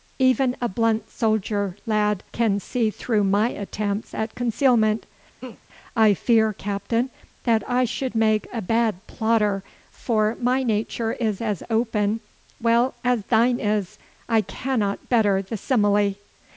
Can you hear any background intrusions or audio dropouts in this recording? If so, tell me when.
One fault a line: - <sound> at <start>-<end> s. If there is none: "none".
- laugh at 5.4-5.6 s